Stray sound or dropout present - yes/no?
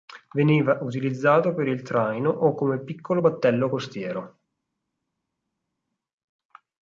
no